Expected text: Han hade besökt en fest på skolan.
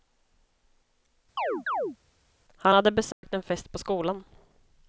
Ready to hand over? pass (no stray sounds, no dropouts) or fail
fail